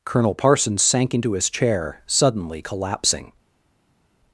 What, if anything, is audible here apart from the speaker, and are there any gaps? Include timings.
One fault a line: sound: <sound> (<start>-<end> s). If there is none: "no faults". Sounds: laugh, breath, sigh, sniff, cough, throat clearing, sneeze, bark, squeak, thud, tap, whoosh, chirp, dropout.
no faults